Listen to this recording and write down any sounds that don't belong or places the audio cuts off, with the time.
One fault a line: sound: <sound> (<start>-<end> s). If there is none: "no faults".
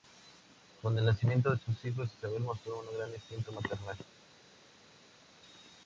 no faults